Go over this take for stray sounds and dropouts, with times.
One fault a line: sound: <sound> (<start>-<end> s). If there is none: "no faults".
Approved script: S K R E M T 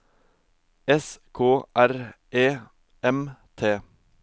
no faults